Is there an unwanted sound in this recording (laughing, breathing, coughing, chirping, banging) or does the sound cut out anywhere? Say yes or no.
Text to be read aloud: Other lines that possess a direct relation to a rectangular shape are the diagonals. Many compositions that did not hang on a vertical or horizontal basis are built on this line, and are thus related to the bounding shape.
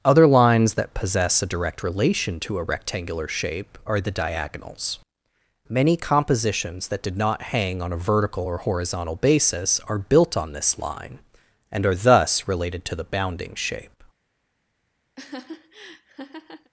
yes